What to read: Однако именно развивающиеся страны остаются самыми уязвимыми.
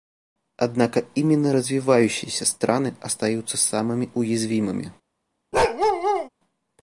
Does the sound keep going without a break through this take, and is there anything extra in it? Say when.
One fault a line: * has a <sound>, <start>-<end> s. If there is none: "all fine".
* has a bark, 5.5-6.3 s